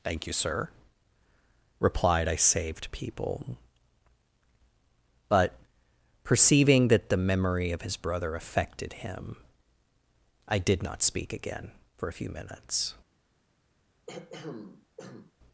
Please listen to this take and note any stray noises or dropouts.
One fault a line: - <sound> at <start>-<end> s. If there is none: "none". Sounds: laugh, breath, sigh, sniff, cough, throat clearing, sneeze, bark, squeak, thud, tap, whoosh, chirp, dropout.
- throat clearing at 14.1-15.3 s